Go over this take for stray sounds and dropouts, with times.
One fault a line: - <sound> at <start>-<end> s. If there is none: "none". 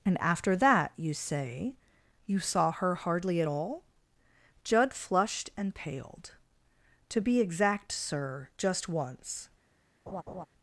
- laugh at 10.1-10.5 s